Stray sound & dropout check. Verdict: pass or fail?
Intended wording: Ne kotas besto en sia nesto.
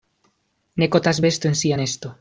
pass